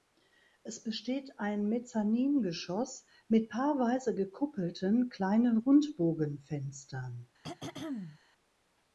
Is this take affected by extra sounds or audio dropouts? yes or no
yes